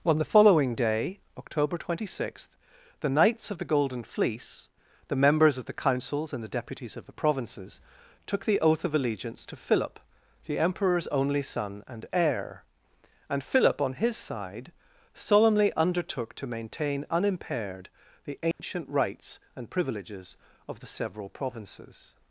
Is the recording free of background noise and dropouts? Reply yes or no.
no